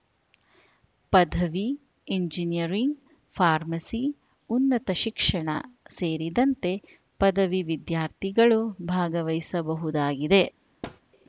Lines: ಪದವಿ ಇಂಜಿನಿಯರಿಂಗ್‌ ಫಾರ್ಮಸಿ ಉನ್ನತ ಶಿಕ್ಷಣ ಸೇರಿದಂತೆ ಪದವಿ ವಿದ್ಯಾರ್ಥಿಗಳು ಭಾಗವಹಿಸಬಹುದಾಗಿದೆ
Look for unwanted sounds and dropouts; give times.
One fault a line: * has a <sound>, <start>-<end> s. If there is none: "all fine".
* has a thud, 10.8-11.0 s